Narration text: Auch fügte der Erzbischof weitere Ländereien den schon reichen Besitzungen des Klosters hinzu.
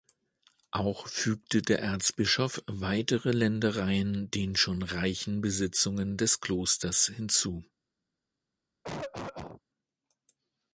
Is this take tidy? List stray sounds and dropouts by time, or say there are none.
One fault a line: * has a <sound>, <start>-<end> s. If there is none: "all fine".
* has a cough, 8.8-9.6 s